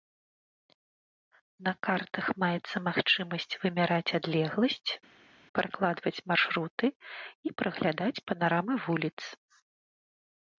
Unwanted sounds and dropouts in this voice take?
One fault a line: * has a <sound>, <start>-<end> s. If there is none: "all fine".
all fine